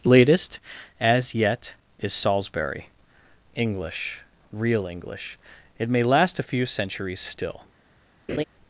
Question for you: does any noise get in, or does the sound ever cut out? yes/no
yes